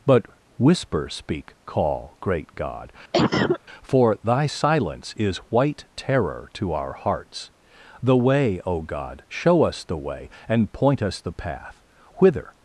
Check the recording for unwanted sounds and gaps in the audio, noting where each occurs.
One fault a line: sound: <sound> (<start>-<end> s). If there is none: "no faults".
sound: cough (3.1-3.6 s)